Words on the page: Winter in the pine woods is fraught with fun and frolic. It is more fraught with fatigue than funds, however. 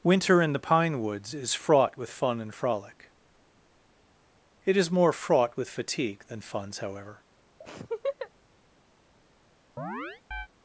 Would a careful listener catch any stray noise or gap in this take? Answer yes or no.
yes